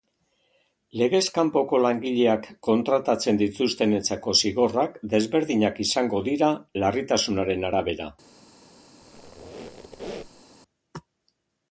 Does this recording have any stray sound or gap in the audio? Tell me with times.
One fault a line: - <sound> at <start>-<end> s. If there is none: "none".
- squeak at 9.0-10.4 s